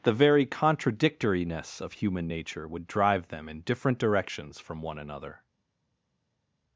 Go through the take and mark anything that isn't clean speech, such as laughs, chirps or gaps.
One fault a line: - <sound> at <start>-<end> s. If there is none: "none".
none